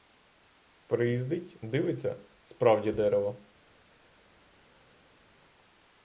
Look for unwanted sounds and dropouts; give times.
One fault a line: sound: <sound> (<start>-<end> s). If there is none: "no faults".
no faults